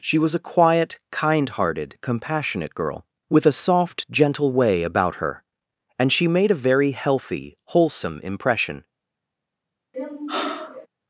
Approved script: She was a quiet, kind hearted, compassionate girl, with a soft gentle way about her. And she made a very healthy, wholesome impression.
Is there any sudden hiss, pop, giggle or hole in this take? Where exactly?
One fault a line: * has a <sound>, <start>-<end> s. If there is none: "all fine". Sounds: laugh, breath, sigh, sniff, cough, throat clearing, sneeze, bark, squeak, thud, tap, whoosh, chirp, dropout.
* has a sigh, 9.9-10.9 s